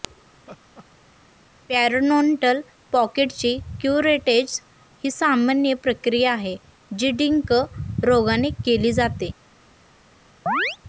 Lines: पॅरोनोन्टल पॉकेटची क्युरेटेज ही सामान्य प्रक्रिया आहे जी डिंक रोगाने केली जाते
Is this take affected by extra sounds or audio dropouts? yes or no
yes